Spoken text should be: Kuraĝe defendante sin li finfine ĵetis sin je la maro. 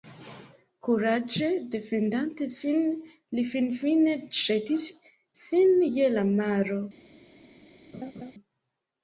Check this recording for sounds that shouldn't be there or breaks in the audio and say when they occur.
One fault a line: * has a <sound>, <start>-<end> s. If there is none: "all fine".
* has a laugh, 7.9-8.3 s